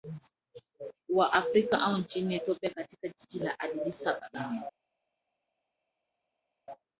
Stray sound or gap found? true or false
false